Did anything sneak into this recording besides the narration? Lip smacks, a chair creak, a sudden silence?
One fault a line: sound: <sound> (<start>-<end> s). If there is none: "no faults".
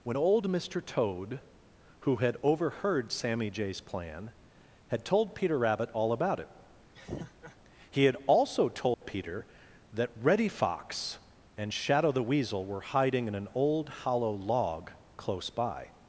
sound: laugh (6.9-7.6 s)
sound: dropout (8.9-9.0 s)